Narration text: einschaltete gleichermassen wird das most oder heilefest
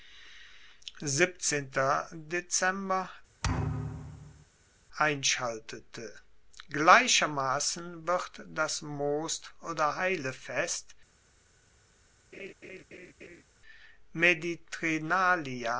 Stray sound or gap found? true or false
true